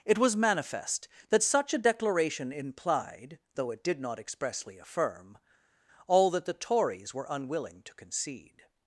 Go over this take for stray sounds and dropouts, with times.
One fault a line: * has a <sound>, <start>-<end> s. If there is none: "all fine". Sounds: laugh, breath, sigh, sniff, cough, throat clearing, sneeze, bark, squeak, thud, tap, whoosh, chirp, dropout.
all fine